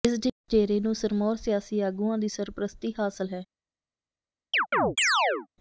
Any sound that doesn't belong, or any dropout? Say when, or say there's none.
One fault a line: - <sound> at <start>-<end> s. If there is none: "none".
- chirp at 4.5-5.5 s